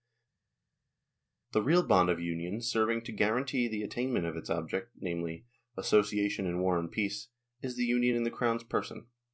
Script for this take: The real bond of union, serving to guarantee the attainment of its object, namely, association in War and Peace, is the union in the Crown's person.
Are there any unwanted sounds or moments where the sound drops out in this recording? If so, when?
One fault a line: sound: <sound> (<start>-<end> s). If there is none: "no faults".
no faults